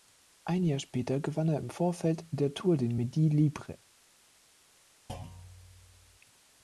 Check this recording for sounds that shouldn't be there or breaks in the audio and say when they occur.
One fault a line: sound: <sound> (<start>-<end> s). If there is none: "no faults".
sound: thud (5.1-6.2 s)